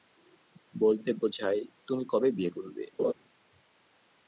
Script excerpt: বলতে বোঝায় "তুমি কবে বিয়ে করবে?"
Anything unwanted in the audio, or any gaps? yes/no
yes